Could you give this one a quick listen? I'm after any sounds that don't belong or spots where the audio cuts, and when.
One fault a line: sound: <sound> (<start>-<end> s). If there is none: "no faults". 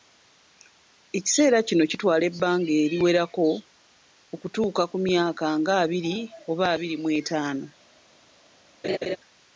sound: laugh (8.8-9.2 s)